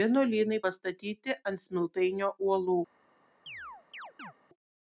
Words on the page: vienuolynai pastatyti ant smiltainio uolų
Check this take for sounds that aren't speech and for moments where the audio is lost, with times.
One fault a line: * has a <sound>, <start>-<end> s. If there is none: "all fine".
* has a chirp, 3.5-4.3 s